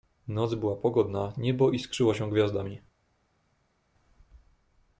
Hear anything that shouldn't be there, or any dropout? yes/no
no